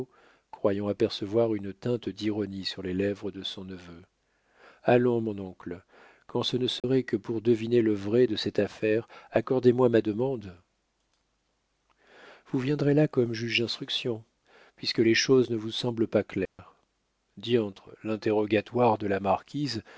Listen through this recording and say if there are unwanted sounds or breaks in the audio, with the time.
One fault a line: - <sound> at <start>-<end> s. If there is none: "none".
- dropout at 6.8-6.8 s
- dropout at 16.5-16.6 s